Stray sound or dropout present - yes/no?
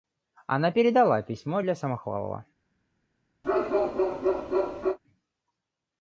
yes